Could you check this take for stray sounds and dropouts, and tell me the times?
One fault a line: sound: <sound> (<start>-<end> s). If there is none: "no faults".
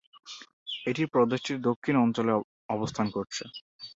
no faults